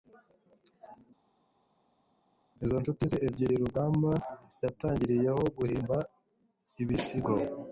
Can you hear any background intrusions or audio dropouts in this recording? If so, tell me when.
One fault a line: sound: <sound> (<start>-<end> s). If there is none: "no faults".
no faults